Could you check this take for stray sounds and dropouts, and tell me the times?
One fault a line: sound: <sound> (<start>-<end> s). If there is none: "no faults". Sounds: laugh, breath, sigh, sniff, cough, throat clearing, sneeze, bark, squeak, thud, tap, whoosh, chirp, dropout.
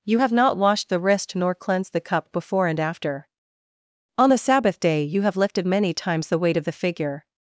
no faults